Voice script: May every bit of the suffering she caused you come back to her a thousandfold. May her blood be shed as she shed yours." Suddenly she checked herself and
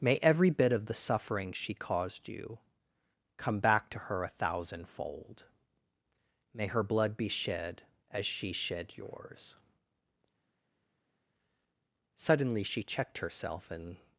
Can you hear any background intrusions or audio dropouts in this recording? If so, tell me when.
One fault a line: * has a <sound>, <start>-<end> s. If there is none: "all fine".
all fine